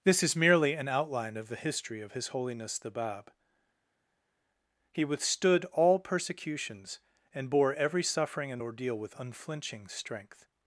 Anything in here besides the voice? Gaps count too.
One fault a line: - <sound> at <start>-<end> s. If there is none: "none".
none